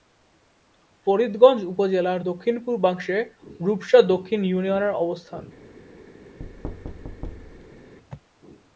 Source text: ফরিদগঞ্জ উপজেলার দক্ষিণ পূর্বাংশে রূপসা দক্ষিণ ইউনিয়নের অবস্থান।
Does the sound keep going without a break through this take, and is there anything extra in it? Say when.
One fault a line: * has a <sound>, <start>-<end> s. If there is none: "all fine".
* has a thud, 6.4-7.9 s